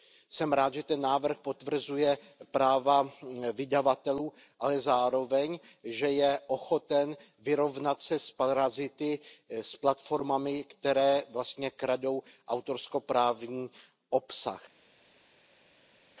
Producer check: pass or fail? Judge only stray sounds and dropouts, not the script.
pass